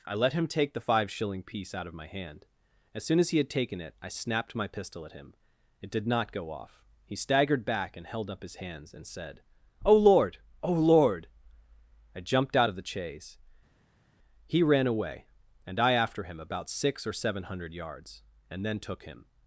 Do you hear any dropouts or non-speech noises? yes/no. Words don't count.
no